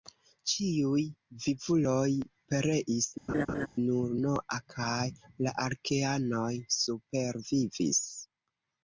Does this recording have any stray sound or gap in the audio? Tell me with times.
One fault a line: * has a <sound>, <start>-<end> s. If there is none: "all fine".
* has a laugh, 3.3-3.7 s